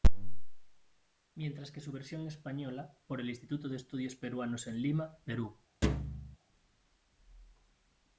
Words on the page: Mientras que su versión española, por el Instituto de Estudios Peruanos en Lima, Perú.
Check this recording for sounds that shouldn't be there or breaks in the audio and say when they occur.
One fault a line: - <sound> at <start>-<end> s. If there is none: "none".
- thud at 5.8-6.4 s